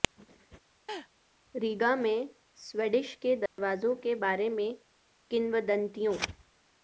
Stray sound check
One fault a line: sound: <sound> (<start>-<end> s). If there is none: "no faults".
sound: laugh (0.9-1.1 s)
sound: dropout (3.5-3.6 s)